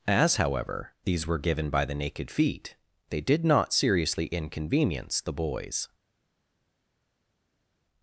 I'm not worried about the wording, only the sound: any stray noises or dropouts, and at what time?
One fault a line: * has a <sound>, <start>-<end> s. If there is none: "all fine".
all fine